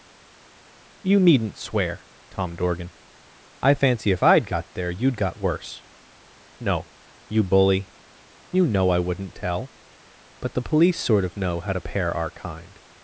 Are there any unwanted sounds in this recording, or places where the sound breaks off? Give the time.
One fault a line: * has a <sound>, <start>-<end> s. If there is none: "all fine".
all fine